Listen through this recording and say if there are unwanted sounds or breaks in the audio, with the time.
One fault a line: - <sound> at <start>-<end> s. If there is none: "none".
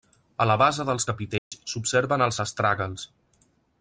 - dropout at 1.4-1.5 s